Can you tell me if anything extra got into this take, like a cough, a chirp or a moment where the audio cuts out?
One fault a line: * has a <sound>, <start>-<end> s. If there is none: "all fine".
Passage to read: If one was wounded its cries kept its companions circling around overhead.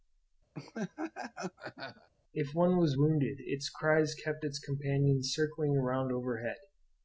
* has a laugh, 0.5-2.1 s